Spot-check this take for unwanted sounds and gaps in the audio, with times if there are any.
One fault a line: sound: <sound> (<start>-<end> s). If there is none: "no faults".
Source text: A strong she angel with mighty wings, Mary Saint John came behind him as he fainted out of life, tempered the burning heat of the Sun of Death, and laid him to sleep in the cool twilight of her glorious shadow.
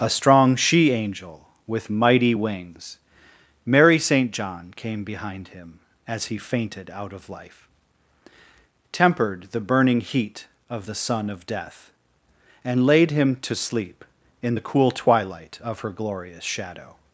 no faults